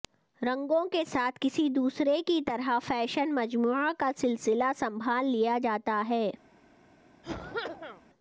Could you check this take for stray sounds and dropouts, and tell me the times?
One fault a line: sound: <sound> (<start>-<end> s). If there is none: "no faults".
sound: cough (7.2-8.0 s)